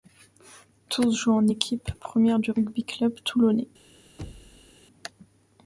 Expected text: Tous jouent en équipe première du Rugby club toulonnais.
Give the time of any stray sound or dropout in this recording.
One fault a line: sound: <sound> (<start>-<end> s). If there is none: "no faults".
sound: thud (4.2-4.8 s)